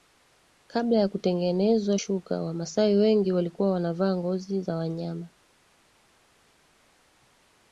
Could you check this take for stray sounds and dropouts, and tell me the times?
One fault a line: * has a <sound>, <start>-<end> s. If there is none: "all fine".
all fine